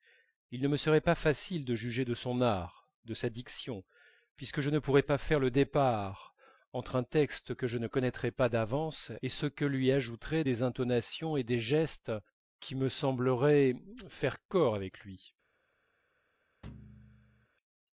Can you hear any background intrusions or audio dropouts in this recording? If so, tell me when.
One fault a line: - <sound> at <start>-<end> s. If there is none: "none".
- thud at 16.6-17.5 s